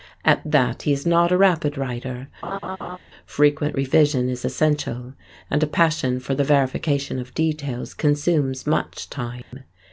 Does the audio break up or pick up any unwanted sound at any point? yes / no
yes